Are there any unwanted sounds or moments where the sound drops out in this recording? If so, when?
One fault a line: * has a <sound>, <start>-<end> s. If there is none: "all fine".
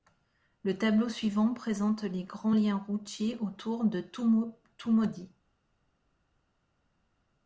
all fine